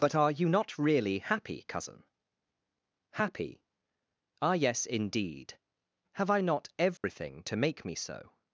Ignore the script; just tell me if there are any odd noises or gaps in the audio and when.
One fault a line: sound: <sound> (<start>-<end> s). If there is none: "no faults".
sound: dropout (7.0-7.0 s)